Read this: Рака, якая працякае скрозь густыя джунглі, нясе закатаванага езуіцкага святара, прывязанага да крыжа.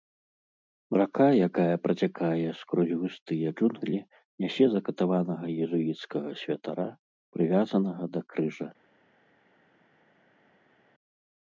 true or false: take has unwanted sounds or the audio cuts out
false